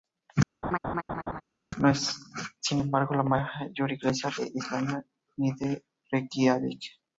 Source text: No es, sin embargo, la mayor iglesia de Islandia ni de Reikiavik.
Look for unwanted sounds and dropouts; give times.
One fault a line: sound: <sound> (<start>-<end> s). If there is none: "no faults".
sound: laugh (0.6-1.4 s)